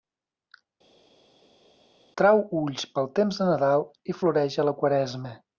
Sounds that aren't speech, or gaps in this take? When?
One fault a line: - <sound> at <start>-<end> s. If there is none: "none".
none